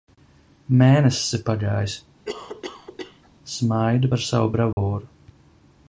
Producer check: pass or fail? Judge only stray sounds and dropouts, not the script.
fail